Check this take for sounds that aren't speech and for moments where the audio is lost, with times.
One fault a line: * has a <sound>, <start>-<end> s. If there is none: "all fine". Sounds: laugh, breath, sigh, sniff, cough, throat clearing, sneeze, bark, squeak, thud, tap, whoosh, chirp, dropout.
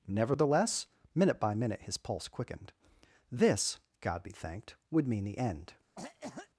* has a cough, 5.9-6.5 s